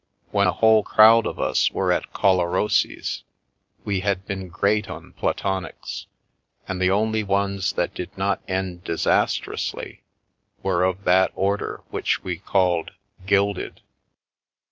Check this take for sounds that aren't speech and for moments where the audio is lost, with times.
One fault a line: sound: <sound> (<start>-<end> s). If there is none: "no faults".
no faults